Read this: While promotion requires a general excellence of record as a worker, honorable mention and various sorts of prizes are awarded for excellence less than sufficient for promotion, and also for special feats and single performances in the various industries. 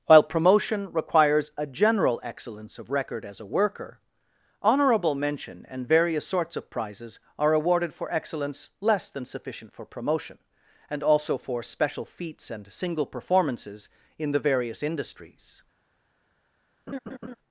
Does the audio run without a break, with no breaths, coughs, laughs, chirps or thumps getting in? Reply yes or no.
no